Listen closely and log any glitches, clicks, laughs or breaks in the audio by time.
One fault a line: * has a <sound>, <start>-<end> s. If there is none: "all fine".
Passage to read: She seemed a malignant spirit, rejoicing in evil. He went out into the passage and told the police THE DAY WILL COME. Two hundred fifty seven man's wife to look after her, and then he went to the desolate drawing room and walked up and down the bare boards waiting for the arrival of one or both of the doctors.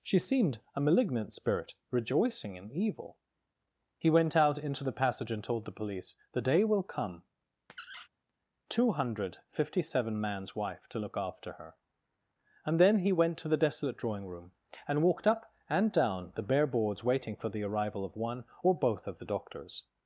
* has a squeak, 7.7-8.1 s